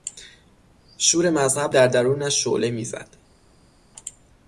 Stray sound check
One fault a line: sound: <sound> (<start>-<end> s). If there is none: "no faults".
no faults